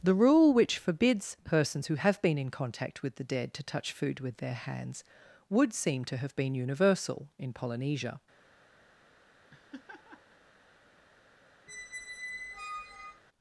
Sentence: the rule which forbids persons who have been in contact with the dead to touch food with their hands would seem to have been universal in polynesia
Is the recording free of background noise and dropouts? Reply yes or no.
no